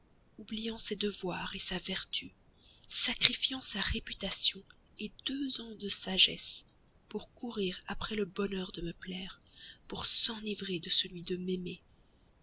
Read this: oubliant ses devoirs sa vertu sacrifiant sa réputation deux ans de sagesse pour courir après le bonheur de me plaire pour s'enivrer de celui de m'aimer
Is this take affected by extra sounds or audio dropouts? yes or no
no